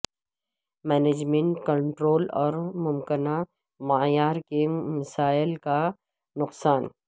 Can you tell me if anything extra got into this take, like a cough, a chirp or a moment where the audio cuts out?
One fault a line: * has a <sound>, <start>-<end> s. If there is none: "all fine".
all fine